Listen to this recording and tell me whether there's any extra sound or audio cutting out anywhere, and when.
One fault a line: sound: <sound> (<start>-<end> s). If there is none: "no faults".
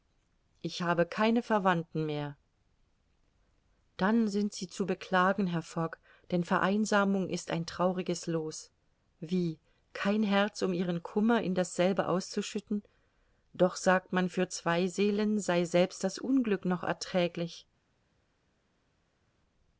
no faults